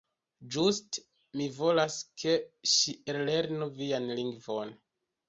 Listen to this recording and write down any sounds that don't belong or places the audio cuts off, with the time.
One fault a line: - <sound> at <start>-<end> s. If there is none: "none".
none